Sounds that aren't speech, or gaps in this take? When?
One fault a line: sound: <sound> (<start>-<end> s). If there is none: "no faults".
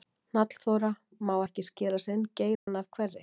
sound: dropout (2.6-2.7 s)